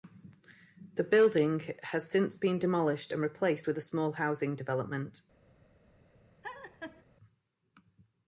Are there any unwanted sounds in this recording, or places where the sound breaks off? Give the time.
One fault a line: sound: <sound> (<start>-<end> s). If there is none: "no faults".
sound: laugh (6.4-7.0 s)